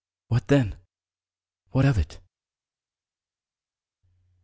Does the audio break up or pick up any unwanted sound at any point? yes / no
no